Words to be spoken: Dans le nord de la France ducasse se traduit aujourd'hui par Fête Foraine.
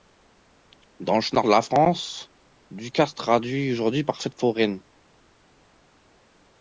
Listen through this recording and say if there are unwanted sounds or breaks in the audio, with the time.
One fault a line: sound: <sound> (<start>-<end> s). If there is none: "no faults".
no faults